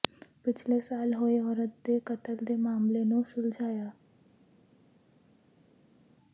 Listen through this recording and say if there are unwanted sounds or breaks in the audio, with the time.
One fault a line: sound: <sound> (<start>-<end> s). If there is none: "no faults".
no faults